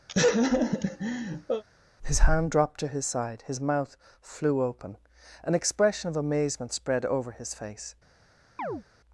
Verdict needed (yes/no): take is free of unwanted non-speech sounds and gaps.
no